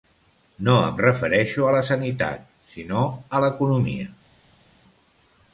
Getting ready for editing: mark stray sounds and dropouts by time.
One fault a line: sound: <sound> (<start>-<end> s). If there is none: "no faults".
no faults